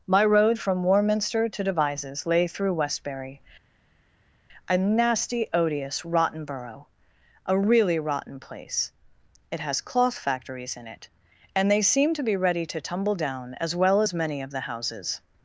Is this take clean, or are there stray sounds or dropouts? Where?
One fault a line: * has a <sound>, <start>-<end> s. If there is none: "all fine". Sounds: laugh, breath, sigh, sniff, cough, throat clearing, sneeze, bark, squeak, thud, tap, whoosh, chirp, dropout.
all fine